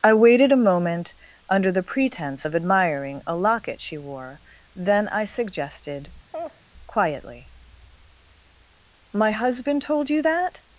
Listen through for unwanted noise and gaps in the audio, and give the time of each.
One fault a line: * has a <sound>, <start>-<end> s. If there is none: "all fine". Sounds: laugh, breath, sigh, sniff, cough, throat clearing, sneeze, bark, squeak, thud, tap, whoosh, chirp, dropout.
* has a laugh, 6.3-6.6 s